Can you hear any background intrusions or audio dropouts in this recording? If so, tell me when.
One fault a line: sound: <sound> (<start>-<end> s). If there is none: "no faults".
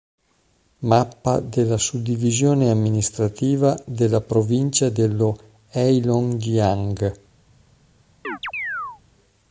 sound: chirp (8.2-9.0 s)